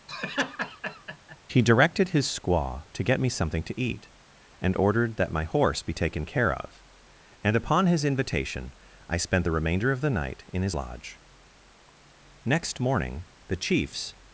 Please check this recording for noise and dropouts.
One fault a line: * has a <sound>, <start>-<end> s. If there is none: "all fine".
* has a laugh, 0.1-1.4 s